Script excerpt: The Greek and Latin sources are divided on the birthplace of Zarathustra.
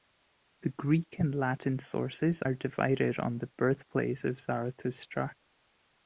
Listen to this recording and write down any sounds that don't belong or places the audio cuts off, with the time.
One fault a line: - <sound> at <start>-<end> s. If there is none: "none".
none